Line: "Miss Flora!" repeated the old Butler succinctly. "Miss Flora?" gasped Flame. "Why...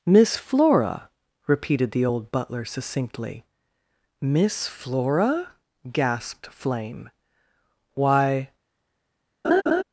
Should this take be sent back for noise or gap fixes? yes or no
yes